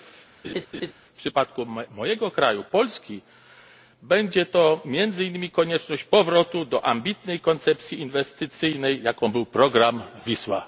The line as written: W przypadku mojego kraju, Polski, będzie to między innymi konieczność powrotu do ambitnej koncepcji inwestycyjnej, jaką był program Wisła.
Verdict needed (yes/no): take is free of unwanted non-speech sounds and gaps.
no